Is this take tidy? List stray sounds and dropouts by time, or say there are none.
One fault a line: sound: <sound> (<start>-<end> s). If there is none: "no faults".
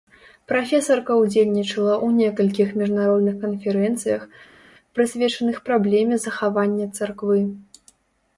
no faults